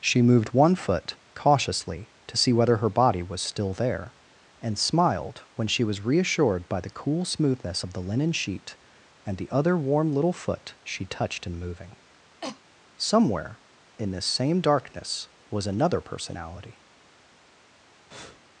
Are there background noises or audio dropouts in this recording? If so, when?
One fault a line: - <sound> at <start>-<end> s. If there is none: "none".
- cough at 12.4-12.6 s
- breath at 18.1-18.4 s